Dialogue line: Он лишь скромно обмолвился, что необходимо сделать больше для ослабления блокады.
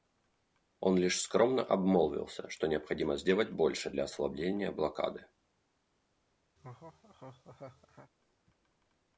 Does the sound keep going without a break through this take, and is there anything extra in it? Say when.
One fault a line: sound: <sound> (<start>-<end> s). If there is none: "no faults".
sound: laugh (6.6-8.1 s)